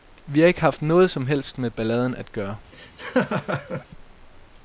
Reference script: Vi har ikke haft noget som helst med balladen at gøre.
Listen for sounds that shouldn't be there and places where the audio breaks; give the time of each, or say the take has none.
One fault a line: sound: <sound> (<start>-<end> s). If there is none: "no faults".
sound: laugh (2.7-3.9 s)